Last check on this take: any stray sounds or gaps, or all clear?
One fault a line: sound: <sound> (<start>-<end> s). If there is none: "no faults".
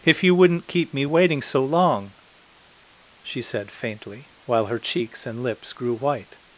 no faults